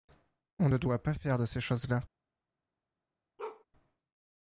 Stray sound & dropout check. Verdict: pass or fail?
fail